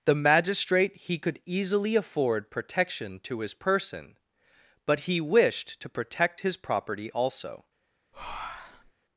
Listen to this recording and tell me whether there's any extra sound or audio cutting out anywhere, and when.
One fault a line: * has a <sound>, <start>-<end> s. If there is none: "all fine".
* has a breath, 8.1-8.9 s